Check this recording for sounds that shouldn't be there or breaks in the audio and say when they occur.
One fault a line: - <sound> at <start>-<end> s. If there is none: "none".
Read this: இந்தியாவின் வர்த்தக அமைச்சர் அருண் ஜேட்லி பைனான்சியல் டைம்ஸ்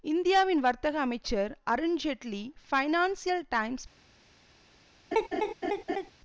- laugh at 5.1-6.1 s